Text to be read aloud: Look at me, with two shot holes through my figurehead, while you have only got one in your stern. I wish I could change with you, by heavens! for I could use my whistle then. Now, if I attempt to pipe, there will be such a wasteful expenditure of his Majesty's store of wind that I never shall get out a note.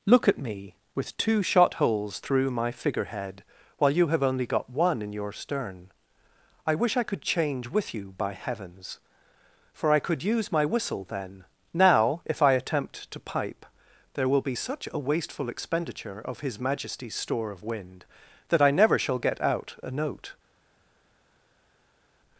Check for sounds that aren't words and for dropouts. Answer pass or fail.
pass